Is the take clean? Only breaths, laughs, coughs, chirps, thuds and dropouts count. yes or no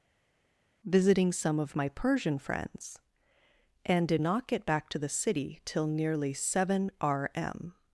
yes